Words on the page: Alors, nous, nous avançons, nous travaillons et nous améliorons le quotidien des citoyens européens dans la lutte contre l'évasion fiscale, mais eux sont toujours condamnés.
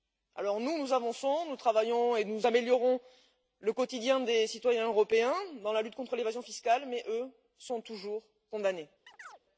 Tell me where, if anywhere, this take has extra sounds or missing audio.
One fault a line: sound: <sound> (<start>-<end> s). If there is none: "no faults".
sound: chirp (9.1-9.4 s)